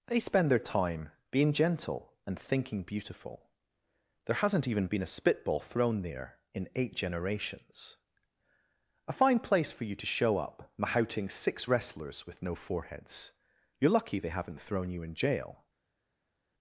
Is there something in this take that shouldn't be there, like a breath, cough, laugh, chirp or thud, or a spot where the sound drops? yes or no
no